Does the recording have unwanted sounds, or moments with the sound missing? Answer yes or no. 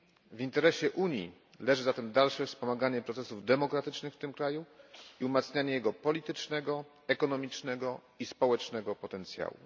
no